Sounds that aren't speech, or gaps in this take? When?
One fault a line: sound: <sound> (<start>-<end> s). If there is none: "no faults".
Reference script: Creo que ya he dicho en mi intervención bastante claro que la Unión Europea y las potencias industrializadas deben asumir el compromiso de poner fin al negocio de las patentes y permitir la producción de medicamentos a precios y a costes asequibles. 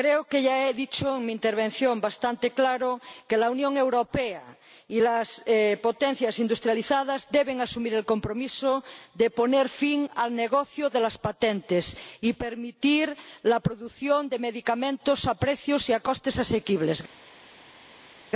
no faults